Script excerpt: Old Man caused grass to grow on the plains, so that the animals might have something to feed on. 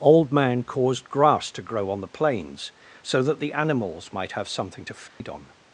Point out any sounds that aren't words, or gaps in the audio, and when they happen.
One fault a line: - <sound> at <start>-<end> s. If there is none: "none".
- dropout at 5.1-5.2 s